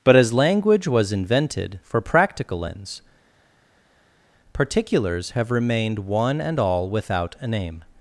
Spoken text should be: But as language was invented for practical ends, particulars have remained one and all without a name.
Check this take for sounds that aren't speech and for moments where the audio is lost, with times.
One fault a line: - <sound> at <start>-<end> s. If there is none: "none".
none